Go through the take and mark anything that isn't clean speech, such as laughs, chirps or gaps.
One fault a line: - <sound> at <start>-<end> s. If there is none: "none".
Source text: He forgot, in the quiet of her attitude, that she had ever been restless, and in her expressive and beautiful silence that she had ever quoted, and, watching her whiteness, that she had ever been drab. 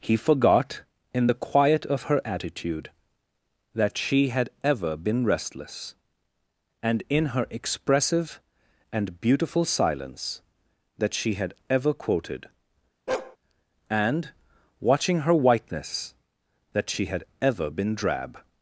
- bark at 13.1-13.4 s